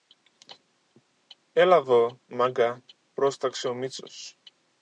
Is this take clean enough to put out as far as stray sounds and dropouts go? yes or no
yes